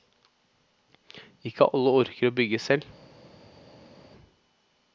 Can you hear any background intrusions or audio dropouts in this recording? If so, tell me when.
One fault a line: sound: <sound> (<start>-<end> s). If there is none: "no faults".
no faults